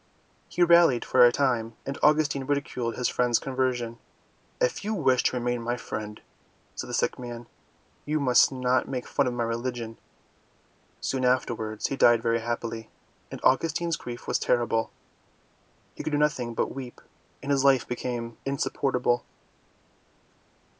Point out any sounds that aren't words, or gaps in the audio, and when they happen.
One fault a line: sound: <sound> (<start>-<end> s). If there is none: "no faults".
no faults